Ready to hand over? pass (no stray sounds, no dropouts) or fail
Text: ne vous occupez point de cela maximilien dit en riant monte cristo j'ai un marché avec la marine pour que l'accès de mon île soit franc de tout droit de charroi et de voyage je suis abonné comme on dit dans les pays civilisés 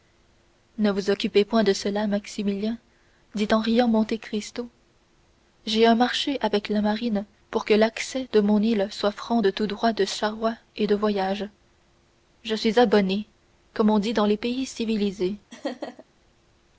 fail